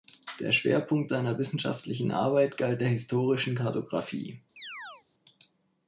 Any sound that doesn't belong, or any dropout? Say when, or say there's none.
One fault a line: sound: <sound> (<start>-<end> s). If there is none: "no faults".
sound: chirp (4.6-5.0 s)